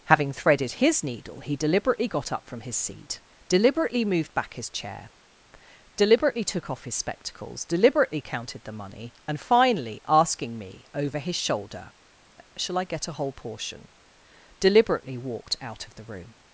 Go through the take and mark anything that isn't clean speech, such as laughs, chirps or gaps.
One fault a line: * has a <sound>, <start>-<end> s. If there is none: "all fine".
all fine